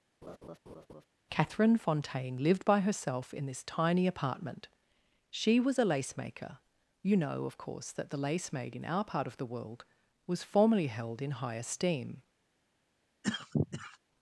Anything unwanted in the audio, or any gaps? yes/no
yes